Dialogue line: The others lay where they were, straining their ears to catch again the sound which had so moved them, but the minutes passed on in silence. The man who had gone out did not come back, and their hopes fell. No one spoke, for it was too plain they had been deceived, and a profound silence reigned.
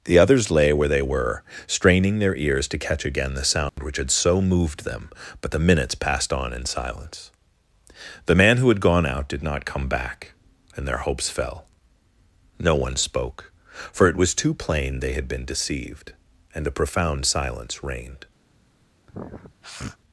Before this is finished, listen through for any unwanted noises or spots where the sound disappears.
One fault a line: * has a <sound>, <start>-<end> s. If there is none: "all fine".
* has a dropout, 3.7-3.8 s
* has a sniff, 19.1-20.0 s